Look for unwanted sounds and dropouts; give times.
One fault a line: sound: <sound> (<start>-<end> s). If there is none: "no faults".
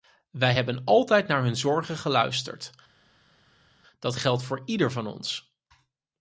no faults